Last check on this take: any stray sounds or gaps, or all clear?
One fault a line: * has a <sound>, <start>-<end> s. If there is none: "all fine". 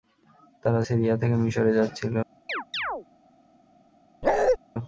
* has a chirp, 2.5-3.1 s
* has a bark, 4.2-4.6 s